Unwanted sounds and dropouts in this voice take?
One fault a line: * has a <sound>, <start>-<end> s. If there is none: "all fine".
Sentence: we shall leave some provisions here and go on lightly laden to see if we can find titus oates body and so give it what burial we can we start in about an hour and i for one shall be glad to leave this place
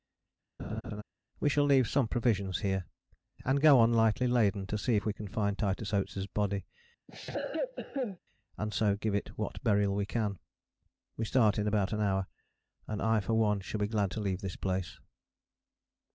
* has a laugh, 0.6-1.0 s
* has a cough, 7.1-8.2 s